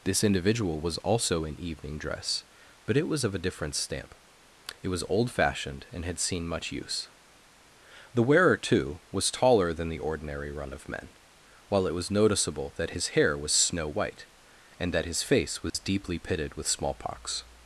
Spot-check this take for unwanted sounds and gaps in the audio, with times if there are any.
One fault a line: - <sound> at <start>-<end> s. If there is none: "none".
- dropout at 15.7-15.7 s